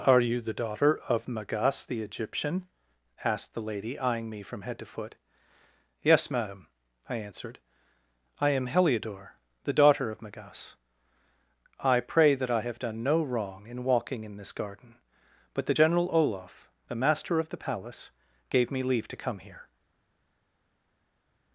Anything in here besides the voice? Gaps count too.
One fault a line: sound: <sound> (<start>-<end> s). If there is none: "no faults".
no faults